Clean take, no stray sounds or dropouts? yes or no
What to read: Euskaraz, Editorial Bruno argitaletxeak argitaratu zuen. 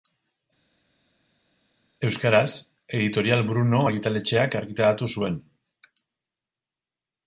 yes